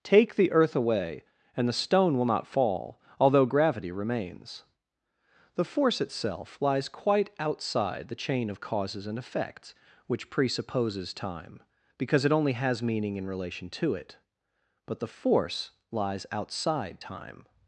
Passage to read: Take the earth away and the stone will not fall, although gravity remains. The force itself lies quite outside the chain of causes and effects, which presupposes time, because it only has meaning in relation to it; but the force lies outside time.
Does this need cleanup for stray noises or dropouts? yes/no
no